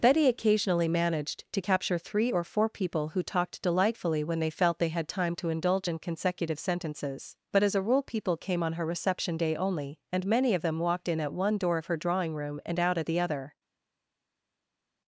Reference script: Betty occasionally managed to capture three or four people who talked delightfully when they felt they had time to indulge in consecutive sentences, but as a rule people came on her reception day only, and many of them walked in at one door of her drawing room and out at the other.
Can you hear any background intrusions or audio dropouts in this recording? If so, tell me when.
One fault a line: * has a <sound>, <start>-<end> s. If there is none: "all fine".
all fine